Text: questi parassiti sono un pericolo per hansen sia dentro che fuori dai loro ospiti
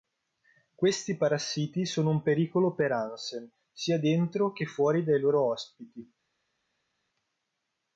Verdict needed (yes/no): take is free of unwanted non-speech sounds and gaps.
yes